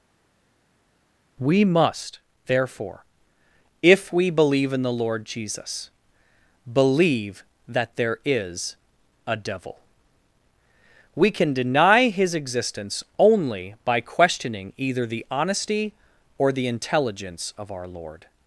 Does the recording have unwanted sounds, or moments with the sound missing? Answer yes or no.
no